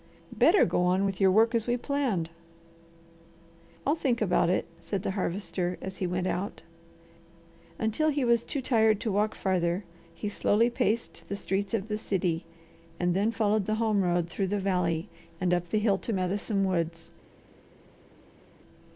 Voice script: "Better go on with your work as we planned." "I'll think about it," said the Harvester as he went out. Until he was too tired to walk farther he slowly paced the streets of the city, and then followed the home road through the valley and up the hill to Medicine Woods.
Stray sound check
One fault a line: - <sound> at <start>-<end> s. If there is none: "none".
none